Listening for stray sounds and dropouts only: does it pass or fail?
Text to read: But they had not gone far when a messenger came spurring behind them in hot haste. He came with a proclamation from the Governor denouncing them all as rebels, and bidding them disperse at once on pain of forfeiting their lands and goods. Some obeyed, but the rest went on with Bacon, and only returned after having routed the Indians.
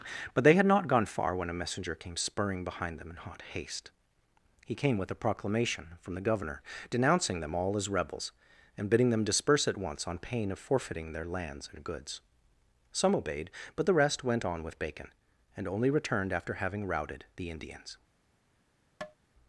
fail